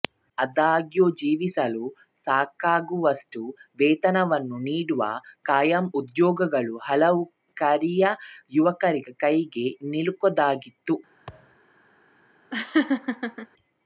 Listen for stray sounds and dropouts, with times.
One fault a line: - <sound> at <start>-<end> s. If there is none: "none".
- thud at 11.3-11.6 s
- laugh at 12.5-13.5 s